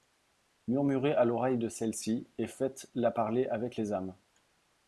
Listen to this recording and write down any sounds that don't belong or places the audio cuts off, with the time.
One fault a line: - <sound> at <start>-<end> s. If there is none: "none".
none